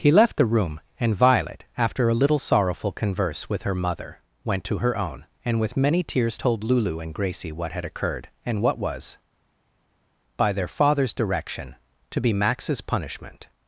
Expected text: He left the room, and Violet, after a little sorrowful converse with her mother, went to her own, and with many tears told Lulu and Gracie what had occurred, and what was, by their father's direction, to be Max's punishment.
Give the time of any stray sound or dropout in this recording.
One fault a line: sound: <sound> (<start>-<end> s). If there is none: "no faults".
no faults